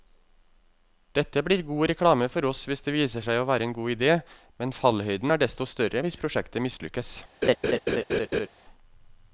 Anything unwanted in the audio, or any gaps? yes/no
yes